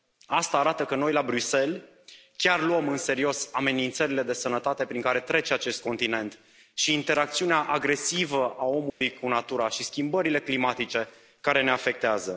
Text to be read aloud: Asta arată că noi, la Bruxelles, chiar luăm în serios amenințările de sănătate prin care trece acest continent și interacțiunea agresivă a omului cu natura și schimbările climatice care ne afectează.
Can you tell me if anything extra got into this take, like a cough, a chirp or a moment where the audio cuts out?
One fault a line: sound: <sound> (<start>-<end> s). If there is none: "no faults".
sound: dropout (8.9-9.0 s)